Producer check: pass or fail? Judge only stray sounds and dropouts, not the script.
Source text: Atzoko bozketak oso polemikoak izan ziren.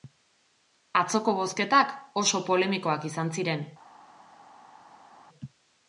pass